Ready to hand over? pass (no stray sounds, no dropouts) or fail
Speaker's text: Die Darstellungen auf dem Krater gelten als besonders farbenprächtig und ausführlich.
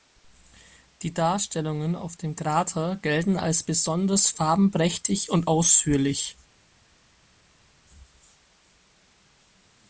pass